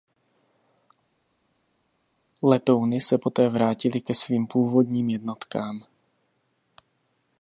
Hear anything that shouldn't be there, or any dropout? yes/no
no